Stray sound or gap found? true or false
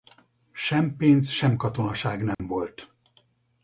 true